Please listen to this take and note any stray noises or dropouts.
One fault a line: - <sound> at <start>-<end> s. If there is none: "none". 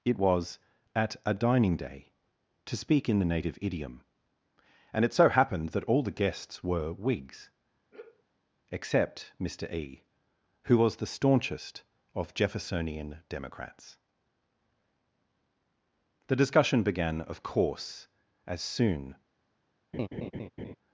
- sigh at 7.9-8.2 s
- laugh at 19.9-20.8 s